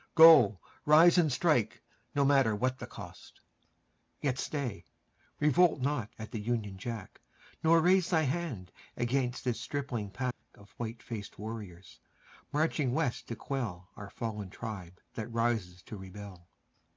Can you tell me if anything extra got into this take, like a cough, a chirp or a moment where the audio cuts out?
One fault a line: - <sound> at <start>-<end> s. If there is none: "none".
- dropout at 10.3-10.4 s